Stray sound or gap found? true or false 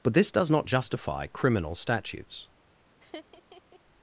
true